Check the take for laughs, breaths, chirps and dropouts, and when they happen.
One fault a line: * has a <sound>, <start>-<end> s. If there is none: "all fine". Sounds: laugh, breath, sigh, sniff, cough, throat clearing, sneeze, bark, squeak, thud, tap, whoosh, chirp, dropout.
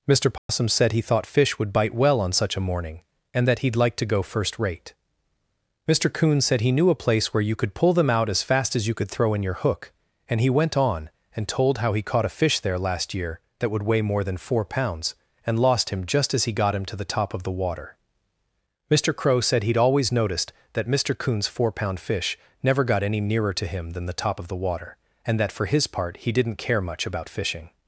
* has a dropout, 0.4-0.5 s